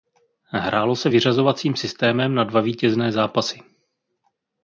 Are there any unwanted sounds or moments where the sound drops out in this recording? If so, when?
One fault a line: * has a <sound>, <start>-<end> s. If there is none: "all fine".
all fine